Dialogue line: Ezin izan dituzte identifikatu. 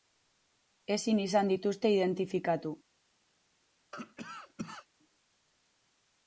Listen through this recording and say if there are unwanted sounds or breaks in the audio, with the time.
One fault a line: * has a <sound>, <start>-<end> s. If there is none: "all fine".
* has a cough, 3.9-4.9 s